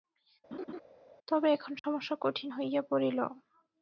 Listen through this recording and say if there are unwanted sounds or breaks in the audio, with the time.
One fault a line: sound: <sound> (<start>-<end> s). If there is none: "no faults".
sound: laugh (0.5-0.8 s)
sound: dropout (1.8-1.8 s)